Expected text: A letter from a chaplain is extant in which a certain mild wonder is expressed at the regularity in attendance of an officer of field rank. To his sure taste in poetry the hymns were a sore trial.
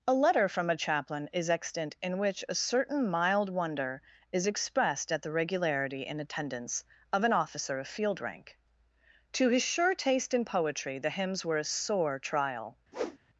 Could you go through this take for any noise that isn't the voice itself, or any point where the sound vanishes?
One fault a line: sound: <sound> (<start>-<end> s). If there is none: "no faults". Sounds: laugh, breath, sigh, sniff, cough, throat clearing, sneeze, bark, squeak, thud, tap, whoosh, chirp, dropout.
sound: whoosh (12.9-13.2 s)